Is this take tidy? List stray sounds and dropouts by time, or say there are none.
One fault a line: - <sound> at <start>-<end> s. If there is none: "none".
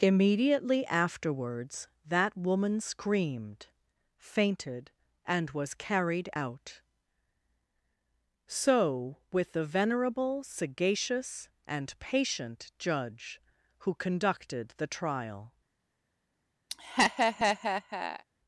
- laugh at 16.7-18.2 s